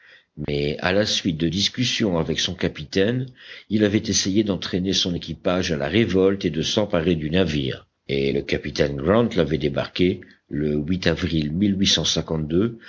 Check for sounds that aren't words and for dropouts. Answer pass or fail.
fail